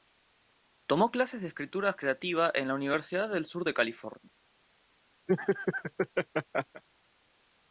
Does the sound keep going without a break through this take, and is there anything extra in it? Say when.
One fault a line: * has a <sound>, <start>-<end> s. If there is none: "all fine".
* has a laugh, 5.3-6.8 s